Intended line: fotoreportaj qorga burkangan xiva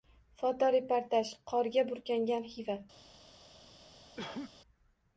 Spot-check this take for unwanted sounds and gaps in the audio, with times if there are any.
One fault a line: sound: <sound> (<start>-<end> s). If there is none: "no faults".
sound: cough (4.2-4.5 s)